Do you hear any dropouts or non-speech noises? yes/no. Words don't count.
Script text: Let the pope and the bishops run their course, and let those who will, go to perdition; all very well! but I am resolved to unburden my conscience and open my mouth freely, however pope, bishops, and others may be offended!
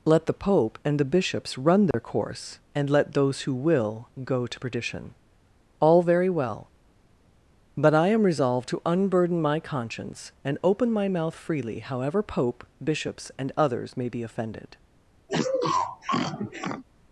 yes